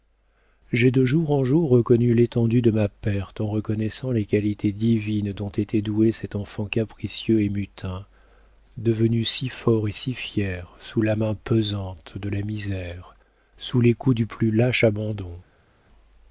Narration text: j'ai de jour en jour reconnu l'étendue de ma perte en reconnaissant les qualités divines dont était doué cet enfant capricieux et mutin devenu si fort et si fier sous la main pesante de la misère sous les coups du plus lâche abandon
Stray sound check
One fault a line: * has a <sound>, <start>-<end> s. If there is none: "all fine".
all fine